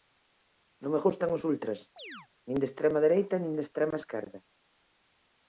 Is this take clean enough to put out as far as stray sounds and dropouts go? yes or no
no